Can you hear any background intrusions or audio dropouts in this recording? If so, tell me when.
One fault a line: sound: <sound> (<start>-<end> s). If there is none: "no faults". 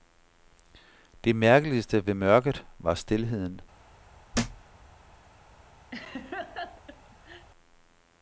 sound: thud (4.3-4.7 s)
sound: laugh (5.9-7.5 s)